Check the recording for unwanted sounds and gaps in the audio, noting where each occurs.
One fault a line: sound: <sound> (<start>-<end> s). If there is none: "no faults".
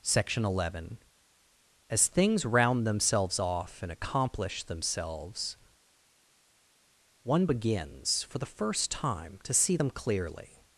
no faults